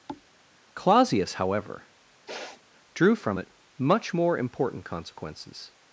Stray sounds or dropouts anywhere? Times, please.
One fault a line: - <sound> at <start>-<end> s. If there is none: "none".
- thud at 0.1-0.3 s
- sniff at 2.3-2.6 s